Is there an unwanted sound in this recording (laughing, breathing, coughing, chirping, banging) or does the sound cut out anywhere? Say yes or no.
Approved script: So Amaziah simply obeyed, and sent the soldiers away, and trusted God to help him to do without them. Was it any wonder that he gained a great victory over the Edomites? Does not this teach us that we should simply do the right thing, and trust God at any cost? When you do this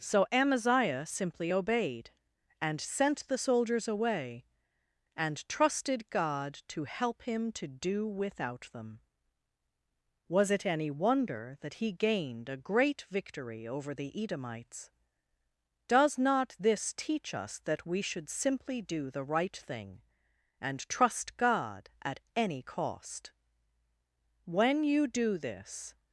no